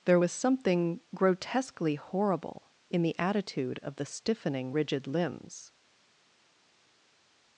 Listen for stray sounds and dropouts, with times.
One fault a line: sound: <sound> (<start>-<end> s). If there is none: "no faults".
no faults